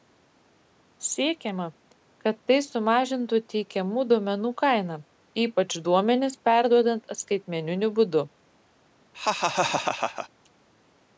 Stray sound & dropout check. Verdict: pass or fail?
fail